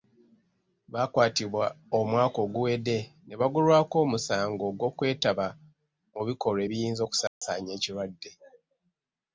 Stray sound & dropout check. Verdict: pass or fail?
fail